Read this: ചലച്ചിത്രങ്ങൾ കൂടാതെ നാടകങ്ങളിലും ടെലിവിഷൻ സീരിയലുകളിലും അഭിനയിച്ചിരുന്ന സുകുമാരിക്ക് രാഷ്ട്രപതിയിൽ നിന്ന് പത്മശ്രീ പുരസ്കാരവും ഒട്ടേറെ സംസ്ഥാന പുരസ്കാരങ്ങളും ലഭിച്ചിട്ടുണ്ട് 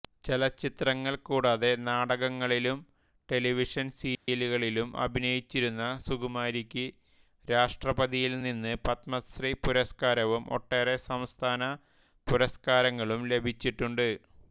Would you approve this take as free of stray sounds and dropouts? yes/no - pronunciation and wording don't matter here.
no